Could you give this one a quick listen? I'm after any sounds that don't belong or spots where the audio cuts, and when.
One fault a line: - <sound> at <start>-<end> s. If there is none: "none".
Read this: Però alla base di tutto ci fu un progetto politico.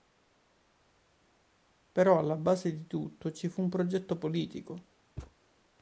- thud at 5.2-5.3 s